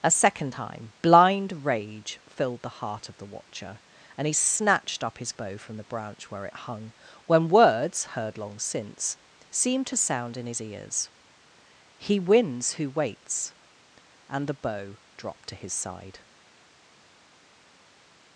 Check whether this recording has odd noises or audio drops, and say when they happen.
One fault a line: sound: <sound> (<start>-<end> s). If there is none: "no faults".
no faults